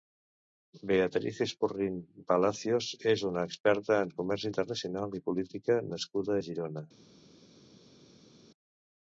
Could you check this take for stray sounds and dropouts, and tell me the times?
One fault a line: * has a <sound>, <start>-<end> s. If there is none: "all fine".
all fine